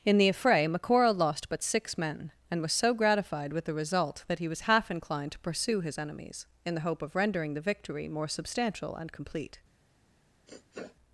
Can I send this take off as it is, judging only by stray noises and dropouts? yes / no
no